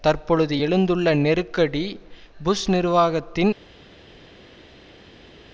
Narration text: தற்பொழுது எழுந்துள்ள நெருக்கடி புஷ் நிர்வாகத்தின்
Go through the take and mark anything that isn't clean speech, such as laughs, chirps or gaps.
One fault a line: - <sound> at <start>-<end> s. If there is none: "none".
none